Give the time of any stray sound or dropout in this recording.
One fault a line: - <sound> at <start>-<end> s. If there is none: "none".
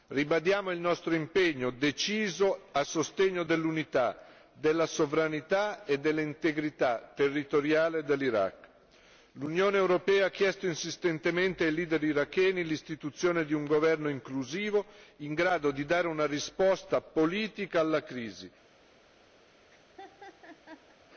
- laugh at 19.4-21.0 s